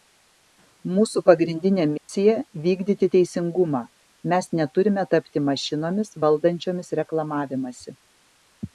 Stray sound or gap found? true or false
true